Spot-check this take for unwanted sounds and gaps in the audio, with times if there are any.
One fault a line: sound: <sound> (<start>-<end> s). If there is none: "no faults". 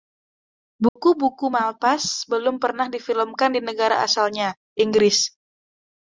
sound: dropout (0.9-1.0 s)